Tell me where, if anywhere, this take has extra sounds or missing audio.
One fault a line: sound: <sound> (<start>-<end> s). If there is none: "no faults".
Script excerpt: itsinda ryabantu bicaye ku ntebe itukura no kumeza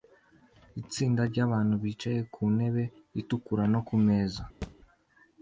sound: thud (4.6-4.8 s)